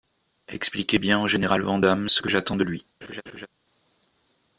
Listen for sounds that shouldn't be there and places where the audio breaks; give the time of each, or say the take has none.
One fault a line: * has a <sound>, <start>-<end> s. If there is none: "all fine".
* has a laugh, 3.0-3.5 s